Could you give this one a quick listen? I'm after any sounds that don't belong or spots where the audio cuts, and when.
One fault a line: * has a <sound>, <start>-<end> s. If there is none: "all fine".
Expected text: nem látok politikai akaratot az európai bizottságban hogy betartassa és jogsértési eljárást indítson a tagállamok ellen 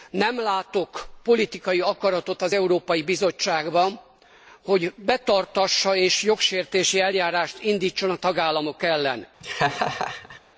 * has a laugh, 9.4-10.4 s